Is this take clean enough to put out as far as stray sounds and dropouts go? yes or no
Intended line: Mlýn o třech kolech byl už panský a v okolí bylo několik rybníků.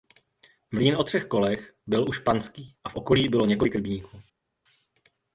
yes